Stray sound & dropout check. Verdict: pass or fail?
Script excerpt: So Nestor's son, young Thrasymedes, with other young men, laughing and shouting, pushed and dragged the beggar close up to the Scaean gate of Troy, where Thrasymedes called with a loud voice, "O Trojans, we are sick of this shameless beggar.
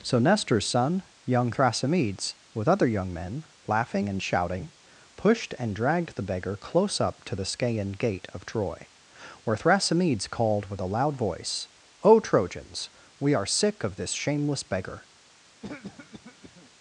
fail